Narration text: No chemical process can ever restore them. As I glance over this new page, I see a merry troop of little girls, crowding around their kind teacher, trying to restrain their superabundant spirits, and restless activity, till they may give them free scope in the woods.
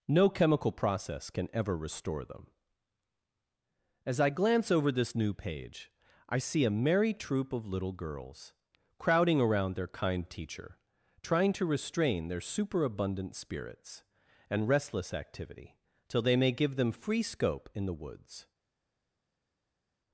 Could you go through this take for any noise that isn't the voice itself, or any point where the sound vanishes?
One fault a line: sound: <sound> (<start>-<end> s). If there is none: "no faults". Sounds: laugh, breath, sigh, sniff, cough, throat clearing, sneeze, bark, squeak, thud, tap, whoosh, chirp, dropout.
no faults